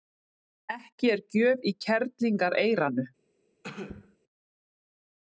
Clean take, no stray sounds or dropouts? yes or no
no